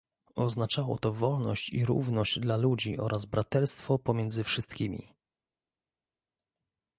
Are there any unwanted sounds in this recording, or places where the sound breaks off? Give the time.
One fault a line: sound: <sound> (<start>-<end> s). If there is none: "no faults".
no faults